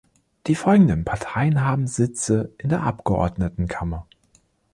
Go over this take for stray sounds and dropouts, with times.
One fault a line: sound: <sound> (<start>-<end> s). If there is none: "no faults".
no faults